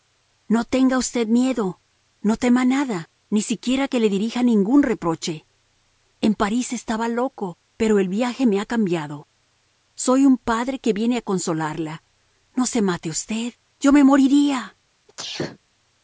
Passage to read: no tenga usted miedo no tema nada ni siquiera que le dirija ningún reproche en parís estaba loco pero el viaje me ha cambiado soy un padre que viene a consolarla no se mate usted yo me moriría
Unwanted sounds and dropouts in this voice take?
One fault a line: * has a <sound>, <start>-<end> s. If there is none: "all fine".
* has a sneeze, 15.1-15.6 s